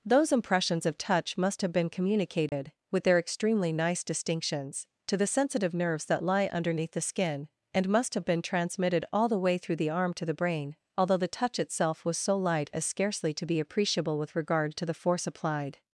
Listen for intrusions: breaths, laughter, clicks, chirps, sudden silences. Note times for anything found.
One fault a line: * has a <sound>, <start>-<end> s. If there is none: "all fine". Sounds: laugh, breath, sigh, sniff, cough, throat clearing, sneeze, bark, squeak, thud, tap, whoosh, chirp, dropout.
* has a dropout, 2.5-2.5 s